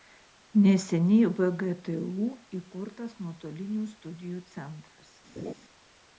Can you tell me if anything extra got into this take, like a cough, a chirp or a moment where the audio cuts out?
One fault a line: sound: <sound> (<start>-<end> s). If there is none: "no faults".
sound: laugh (5.4-5.5 s)